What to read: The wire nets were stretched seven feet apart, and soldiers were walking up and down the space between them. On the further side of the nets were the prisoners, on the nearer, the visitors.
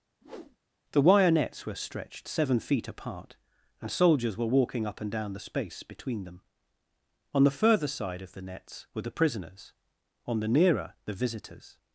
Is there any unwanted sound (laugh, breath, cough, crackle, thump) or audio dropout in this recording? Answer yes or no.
yes